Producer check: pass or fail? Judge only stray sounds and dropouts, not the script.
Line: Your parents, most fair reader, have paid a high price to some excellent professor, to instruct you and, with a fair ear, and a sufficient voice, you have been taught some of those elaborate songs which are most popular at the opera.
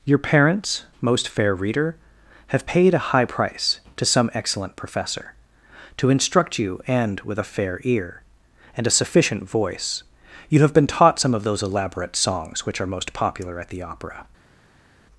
pass